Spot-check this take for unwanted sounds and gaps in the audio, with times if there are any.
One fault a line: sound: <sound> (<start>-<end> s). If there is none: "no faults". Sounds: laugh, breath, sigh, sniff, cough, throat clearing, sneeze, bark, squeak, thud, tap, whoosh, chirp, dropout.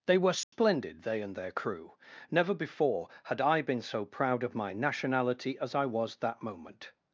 sound: dropout (0.4-0.5 s)